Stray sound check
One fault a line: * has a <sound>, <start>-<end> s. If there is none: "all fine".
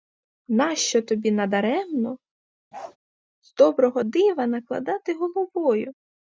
* has a bark, 2.7-3.0 s